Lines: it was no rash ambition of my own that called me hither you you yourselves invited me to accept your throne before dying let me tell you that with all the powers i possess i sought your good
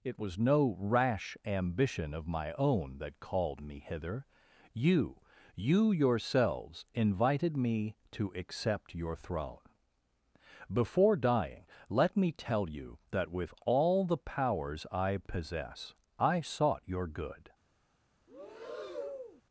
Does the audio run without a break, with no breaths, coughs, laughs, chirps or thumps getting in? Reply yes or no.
no